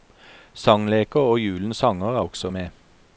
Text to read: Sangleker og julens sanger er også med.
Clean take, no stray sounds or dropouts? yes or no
yes